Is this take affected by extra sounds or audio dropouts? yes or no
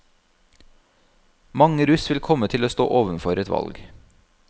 no